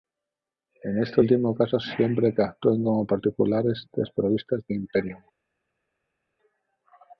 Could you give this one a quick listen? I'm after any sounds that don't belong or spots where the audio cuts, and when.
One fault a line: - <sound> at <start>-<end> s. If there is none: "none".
none